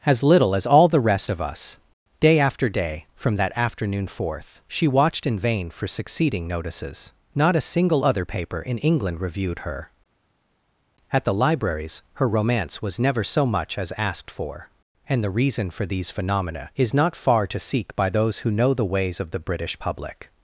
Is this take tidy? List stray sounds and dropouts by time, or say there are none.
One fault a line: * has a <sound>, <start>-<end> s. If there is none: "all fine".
all fine